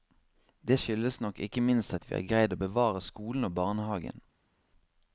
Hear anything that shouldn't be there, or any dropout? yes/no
no